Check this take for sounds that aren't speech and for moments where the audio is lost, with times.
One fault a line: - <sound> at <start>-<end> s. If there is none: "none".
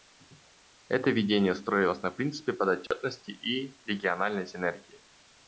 - dropout at 2.9-2.9 s